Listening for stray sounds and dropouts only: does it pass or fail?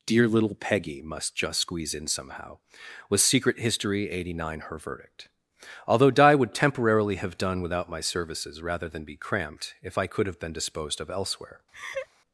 fail